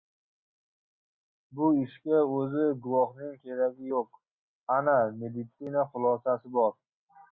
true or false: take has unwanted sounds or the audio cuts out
false